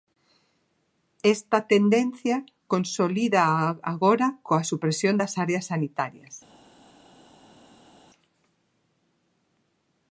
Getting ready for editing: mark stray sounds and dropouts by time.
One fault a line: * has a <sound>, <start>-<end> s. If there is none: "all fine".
all fine